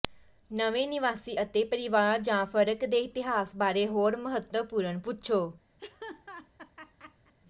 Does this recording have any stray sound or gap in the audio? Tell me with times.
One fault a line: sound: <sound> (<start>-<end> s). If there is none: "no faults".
sound: laugh (5.8-7.3 s)